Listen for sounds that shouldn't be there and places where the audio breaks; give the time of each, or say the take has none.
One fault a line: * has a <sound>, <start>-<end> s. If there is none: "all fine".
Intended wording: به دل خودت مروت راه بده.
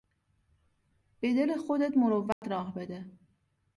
* has a dropout, 2.3-2.4 s